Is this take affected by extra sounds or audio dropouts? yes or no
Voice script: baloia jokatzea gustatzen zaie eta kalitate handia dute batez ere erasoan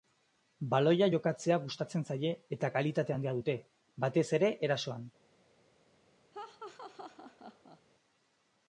yes